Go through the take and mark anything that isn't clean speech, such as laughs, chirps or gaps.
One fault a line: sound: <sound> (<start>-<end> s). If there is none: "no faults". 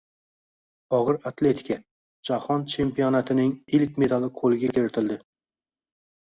no faults